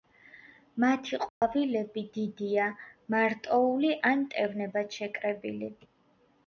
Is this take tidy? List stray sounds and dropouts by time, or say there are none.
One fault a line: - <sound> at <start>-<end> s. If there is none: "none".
- dropout at 1.3-1.4 s